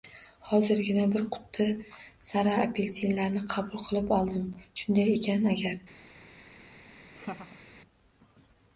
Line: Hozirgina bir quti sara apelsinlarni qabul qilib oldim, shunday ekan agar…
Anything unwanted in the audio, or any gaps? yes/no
yes